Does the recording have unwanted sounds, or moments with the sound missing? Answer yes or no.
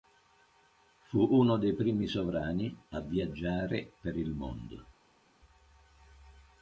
no